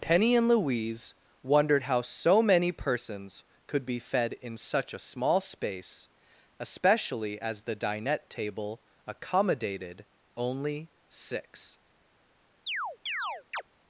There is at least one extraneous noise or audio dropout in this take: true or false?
true